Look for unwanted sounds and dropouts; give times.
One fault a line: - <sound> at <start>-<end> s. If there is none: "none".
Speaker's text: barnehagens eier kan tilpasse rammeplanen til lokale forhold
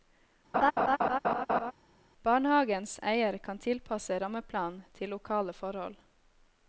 - laugh at 0.5-1.7 s